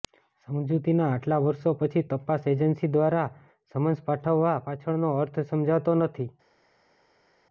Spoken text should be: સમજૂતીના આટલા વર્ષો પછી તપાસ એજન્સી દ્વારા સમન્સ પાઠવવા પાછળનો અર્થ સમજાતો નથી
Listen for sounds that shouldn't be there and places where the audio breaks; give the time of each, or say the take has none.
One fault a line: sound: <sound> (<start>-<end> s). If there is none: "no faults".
no faults